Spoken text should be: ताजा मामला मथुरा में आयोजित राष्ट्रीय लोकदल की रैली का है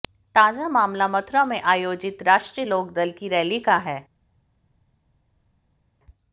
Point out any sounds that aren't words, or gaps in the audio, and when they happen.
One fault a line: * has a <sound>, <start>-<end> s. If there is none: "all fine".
all fine